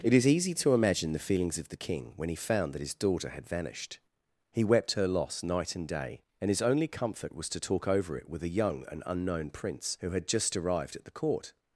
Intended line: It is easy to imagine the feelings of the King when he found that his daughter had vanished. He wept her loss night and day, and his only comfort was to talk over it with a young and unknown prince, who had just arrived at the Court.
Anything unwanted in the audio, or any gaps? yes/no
no